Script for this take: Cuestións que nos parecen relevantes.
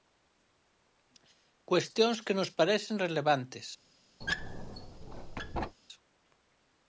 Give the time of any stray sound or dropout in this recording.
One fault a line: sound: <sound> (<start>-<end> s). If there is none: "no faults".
sound: squeak (4.2-5.8 s)